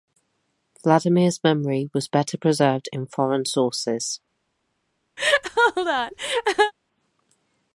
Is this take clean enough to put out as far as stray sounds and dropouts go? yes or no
no